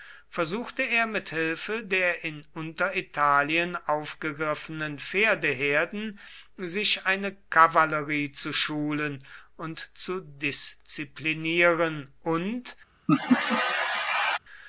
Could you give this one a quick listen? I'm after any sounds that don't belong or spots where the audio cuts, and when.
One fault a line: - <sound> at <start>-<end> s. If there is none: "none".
- laugh at 13.1-14.4 s